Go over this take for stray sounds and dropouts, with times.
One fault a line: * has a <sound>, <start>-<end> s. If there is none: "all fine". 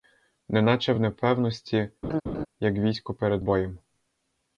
* has a laugh, 2.0-2.5 s